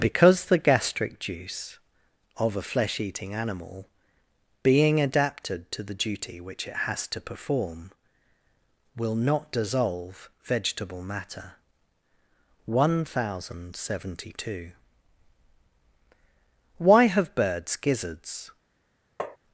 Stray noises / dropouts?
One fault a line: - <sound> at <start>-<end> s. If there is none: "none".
- tap at 19.2-19.4 s